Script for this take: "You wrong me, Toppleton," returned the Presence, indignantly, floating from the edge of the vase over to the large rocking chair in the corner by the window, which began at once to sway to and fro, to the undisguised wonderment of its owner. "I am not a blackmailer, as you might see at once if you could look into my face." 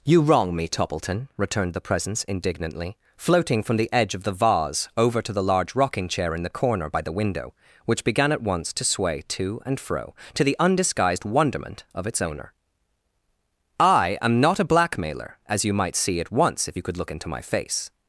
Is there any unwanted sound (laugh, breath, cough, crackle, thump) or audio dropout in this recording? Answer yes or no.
no